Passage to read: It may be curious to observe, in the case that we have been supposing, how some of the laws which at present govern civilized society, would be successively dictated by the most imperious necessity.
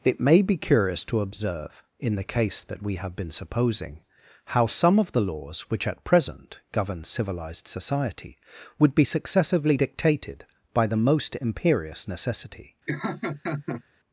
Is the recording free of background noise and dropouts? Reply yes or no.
no